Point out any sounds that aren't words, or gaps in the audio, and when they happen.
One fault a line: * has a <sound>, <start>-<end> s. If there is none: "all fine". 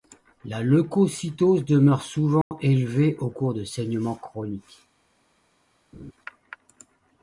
* has a dropout, 2.4-2.5 s
* has a laugh, 5.9-6.1 s